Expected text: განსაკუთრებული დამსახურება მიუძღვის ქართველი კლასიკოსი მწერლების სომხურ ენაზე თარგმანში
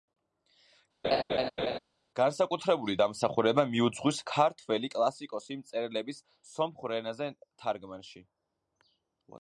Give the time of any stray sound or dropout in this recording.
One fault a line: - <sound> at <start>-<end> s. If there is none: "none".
- laugh at 1.0-1.8 s